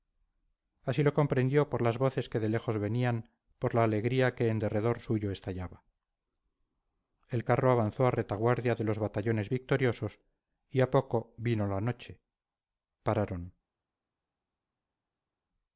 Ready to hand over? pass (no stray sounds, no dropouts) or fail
pass